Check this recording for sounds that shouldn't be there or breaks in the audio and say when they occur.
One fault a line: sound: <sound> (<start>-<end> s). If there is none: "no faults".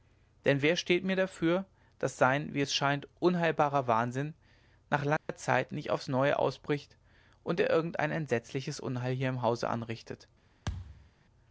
sound: dropout (5.2-5.3 s)
sound: thud (10.7-11.1 s)